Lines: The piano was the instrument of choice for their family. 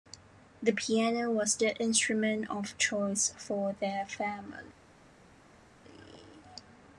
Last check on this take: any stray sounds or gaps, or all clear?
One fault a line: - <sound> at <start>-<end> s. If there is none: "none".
none